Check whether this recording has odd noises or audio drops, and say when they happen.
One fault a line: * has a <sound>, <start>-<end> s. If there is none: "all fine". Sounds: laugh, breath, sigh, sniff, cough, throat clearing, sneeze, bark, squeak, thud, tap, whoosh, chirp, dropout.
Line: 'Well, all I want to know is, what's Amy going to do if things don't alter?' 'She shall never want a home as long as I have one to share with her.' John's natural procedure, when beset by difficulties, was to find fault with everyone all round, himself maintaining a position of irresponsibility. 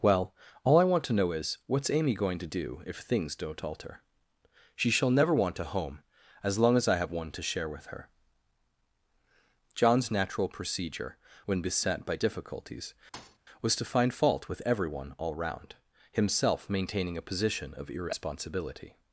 * has a thud, 13.1-13.4 s